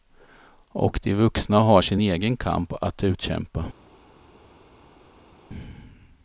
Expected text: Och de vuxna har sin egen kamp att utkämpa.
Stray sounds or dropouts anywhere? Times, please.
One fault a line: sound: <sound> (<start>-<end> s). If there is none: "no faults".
no faults